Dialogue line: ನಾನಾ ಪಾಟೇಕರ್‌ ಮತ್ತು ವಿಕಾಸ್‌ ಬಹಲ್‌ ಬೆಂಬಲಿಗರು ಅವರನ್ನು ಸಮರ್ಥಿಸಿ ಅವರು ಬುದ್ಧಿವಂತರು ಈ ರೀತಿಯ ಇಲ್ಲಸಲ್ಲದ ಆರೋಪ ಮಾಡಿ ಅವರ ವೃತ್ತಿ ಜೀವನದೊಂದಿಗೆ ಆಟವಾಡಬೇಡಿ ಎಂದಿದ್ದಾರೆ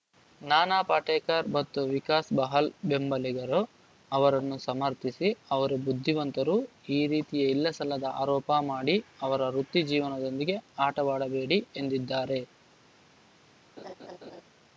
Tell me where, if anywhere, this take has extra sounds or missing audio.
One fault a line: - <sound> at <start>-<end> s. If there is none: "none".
- laugh at 13.8-14.4 s